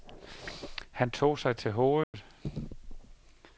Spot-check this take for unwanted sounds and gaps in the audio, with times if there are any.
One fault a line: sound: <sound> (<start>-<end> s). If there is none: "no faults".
sound: dropout (2.0-2.1 s)